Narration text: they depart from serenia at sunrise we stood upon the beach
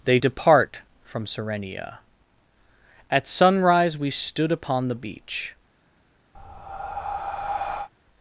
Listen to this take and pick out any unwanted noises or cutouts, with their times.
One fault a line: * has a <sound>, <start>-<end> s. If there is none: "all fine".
* has a breath, 6.3-7.9 s